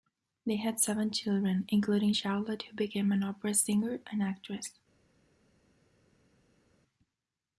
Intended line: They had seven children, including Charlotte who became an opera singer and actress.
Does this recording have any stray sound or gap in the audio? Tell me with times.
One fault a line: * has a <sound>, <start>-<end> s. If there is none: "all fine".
all fine